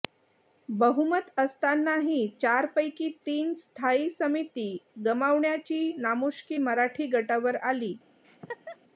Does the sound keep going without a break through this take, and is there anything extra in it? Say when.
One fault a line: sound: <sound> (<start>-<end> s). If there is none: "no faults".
sound: laugh (8.2-8.8 s)